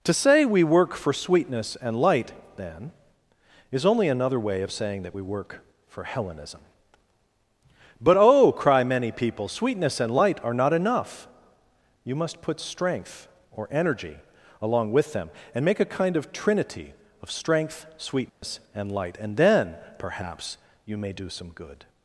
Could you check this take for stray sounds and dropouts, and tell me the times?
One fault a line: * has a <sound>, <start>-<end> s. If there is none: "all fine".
* has a dropout, 18.3-18.4 s